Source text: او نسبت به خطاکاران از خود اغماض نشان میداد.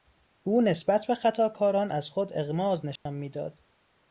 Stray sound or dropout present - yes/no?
yes